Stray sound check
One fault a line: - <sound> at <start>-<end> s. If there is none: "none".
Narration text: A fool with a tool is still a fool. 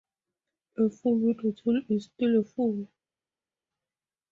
none